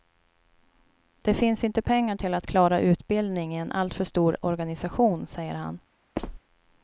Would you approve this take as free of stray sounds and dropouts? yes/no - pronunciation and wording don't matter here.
no